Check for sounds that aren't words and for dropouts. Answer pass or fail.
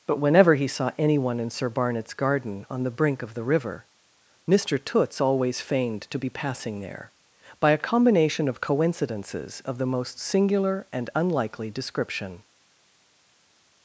pass